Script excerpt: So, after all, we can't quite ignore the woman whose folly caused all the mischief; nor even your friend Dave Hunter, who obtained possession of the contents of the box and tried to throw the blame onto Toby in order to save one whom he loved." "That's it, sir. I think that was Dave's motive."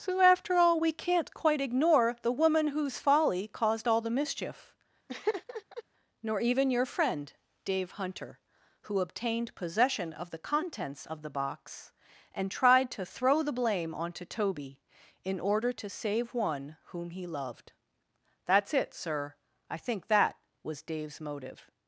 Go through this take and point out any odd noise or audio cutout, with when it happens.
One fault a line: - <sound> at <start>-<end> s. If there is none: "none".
- laugh at 5.1-5.8 s